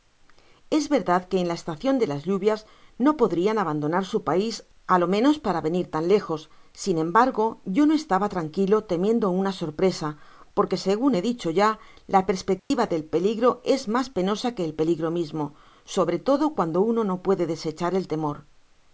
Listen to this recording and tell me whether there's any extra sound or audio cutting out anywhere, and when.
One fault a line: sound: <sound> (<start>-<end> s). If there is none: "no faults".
sound: dropout (12.6-12.7 s)